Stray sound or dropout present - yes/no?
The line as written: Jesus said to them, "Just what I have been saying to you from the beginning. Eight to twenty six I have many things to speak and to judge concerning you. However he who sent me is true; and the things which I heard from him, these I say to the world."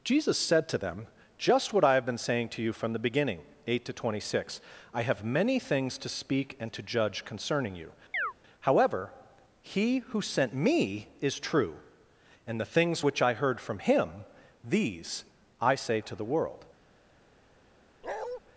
yes